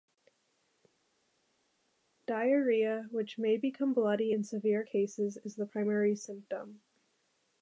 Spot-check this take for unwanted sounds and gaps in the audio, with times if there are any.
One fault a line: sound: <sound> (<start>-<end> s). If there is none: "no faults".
no faults